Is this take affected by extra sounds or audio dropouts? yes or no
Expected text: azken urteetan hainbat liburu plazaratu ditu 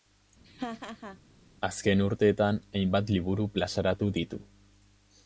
yes